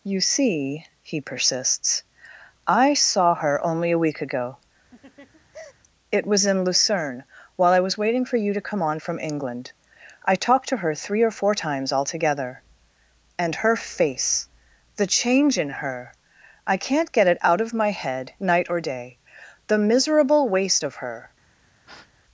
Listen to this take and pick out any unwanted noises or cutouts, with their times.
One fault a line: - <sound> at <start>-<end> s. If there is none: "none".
- laugh at 4.9-5.7 s
- breath at 21.8-22.2 s